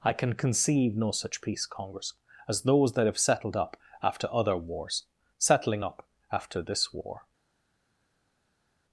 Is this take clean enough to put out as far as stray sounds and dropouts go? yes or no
yes